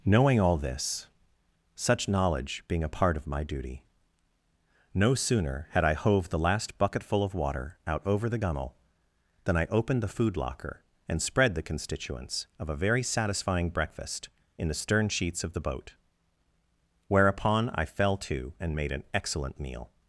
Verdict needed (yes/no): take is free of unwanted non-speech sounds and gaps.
yes